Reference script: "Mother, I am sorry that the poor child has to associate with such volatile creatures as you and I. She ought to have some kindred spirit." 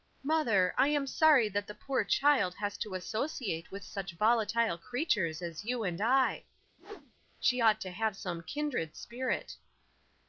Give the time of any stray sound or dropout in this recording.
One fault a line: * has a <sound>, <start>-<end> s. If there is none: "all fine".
* has a whoosh, 6.8-7.1 s